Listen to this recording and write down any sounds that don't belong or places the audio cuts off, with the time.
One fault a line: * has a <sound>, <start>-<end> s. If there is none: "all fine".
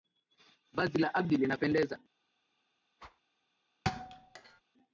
* has a whoosh, 3.0-3.2 s
* has a thud, 3.8-4.6 s